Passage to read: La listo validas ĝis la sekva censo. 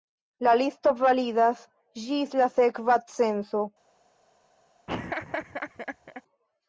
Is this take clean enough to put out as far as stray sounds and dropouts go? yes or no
no